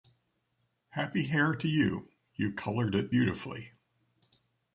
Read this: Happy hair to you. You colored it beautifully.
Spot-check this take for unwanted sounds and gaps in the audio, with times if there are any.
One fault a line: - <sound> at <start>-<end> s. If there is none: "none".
none